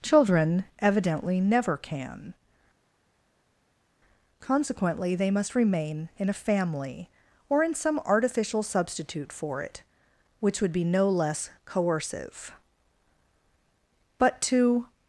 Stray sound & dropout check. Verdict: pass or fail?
pass